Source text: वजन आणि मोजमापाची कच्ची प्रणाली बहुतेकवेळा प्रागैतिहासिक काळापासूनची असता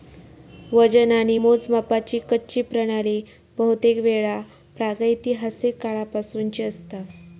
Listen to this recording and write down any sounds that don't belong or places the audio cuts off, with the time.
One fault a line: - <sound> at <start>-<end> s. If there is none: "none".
none